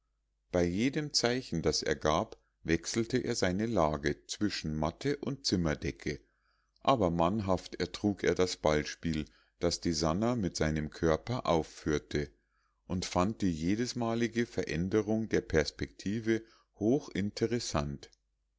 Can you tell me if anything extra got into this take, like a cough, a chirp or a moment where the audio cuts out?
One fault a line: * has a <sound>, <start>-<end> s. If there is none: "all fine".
all fine